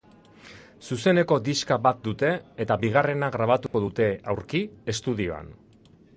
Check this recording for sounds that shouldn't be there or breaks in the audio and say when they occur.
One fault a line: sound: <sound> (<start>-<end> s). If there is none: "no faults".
sound: dropout (3.7-3.7 s)